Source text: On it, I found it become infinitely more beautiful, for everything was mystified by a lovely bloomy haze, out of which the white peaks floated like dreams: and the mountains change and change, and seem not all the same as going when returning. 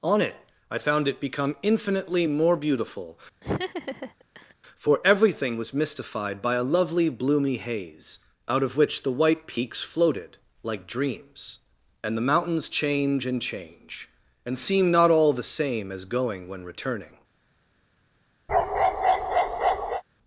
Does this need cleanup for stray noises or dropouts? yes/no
yes